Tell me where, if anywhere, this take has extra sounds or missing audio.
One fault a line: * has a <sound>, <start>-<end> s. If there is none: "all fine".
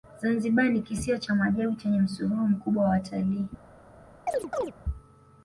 * has a chirp, 4.3-4.7 s